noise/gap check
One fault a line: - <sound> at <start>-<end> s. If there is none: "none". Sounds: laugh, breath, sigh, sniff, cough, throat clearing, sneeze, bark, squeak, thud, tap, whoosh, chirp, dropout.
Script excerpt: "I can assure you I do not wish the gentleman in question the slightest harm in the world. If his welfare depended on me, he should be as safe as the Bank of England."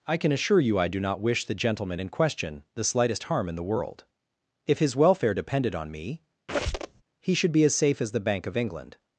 - squeak at 6.5-7.0 s